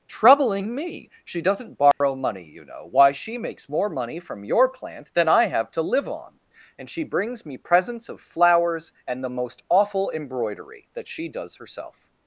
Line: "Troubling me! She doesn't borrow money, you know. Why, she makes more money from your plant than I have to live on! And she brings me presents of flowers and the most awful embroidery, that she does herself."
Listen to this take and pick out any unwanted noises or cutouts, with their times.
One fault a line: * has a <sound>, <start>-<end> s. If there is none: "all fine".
* has a dropout, 1.9-2.0 s